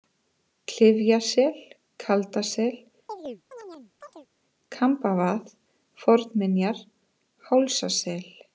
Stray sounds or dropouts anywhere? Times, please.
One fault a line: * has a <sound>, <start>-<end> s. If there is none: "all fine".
* has a chirp, 3.1-4.3 s